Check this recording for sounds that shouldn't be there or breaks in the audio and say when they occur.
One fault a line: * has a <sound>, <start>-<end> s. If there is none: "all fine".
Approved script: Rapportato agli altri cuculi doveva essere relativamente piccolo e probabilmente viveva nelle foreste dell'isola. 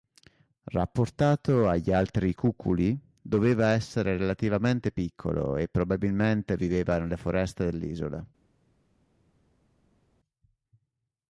all fine